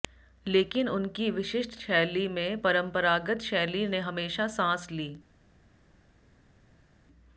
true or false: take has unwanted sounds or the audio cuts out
false